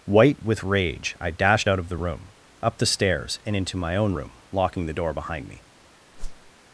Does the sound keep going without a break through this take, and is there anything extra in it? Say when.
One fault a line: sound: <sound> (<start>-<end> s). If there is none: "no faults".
sound: whoosh (6.1-6.5 s)